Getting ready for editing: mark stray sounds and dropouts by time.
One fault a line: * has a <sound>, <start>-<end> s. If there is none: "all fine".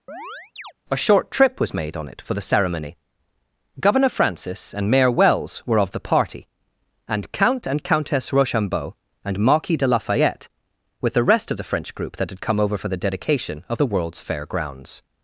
* has a chirp, 0.1-0.7 s